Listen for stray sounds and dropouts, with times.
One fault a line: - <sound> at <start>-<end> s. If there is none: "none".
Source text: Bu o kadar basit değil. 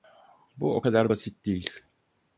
none